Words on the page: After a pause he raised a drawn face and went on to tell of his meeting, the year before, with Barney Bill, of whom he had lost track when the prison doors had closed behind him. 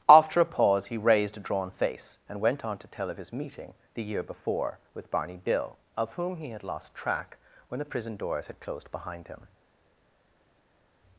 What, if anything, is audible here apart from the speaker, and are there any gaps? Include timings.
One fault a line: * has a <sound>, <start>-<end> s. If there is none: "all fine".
all fine